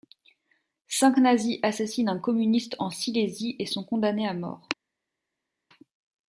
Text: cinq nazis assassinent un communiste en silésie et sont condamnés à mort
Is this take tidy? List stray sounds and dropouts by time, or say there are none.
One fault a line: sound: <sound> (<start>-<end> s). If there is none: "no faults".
no faults